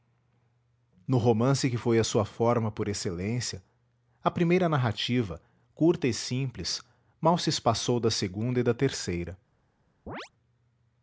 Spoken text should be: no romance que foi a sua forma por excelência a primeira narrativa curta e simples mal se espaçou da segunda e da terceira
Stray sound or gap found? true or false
true